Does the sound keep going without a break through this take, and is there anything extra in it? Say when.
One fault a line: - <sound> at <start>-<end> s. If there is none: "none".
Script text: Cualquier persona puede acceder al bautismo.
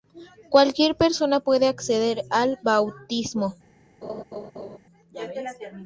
- laugh at 4.0-4.8 s